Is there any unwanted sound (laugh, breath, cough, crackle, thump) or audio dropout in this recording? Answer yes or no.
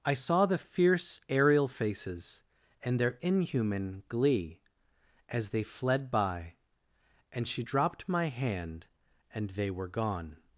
no